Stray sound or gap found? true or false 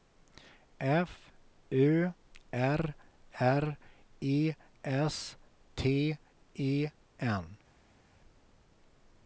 false